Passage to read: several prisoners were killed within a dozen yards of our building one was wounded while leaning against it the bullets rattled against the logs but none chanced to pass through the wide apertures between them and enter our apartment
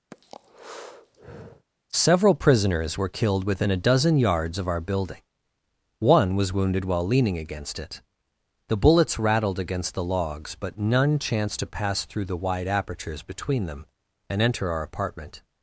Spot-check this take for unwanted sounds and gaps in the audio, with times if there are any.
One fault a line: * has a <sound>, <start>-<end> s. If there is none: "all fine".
* has a breath, 0.1-1.7 s